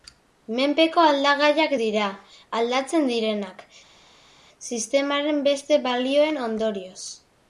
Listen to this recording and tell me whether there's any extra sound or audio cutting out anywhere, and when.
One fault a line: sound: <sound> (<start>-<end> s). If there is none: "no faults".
no faults